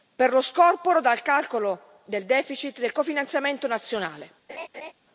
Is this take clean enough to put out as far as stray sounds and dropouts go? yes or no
no